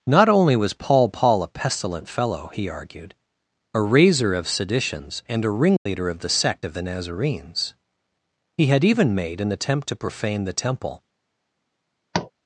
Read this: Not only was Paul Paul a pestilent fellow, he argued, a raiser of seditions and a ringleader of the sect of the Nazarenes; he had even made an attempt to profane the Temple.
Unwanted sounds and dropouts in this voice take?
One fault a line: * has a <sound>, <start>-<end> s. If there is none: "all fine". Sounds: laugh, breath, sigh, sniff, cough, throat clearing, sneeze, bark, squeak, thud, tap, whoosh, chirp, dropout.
* has a dropout, 5.8-5.9 s
* has a tap, 12.1-12.3 s